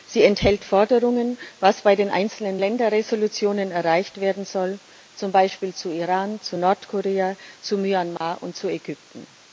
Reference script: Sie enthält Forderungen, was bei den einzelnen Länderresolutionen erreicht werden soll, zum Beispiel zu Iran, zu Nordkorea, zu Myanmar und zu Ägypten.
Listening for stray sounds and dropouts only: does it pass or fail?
fail